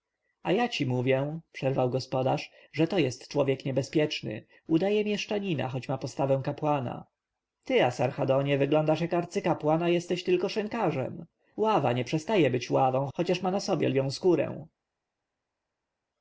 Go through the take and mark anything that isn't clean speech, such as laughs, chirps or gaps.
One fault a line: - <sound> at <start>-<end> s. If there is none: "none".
none